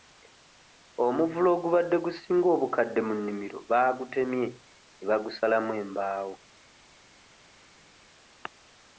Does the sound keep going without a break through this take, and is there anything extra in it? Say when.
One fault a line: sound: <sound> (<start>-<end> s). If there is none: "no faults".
no faults